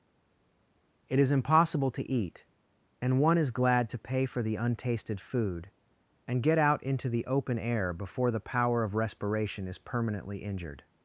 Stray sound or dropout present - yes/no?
no